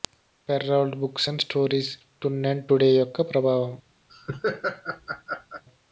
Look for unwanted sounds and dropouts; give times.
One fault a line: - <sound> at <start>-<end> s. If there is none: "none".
- laugh at 4.1-5.6 s